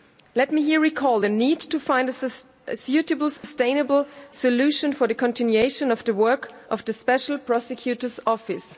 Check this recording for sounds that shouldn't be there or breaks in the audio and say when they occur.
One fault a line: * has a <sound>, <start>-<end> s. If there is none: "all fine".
* has a dropout, 3.4-3.4 s